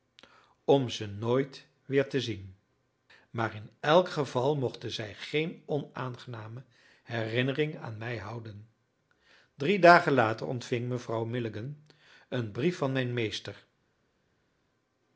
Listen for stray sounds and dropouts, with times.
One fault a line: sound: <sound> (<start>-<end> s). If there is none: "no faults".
no faults